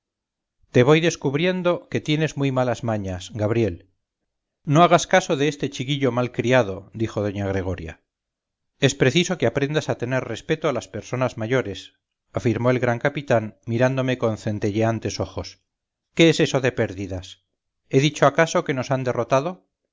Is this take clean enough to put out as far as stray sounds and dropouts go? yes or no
yes